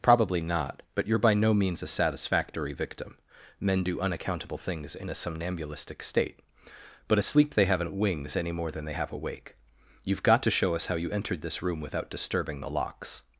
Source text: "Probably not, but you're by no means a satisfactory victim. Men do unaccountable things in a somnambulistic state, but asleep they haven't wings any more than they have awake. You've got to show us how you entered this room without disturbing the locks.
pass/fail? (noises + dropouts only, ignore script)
pass